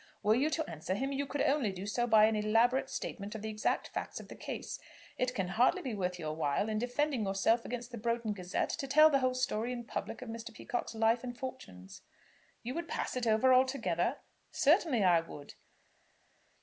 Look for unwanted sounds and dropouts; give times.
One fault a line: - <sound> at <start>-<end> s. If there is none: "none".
none